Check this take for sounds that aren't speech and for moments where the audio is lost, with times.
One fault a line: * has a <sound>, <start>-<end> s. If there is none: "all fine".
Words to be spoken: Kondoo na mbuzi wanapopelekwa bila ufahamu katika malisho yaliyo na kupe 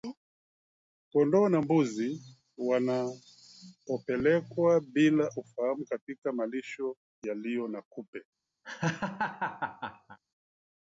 * has a laugh, 8.6-10.2 s